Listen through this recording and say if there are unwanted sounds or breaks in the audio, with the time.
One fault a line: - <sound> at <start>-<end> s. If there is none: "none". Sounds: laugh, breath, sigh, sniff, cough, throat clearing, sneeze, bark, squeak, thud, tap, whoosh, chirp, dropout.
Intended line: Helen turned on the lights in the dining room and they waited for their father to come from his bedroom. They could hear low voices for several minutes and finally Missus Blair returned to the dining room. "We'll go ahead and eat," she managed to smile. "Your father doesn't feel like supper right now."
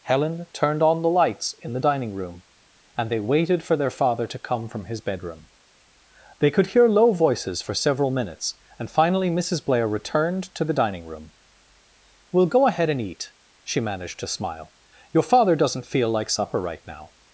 none